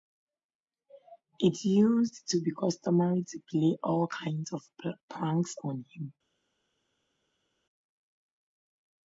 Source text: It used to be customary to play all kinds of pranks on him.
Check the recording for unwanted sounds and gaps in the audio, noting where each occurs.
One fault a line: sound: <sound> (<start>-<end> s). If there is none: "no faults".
no faults